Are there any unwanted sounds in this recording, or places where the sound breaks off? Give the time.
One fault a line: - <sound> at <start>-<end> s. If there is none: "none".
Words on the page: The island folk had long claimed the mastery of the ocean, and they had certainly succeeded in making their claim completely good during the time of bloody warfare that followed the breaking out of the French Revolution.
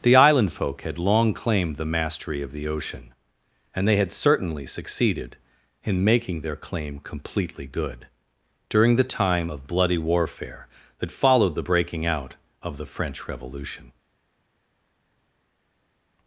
none